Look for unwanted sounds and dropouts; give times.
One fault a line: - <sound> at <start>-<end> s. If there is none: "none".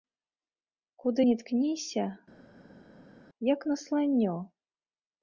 none